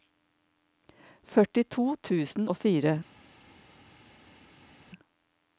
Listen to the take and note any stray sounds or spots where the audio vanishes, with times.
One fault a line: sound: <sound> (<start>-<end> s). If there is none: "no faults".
no faults